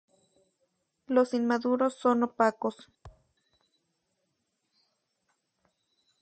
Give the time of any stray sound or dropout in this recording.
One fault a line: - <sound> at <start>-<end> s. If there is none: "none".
- thud at 3.0-3.4 s